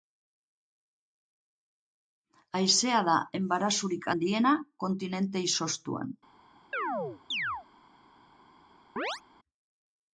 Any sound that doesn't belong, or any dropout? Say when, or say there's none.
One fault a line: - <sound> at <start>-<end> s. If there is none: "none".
- chirp at 6.7-7.7 s
- chirp at 9.0-9.2 s